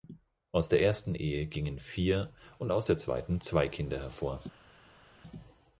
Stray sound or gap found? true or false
false